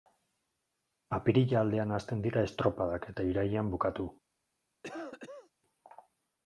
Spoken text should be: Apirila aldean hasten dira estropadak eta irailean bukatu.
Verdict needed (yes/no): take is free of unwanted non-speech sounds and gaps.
no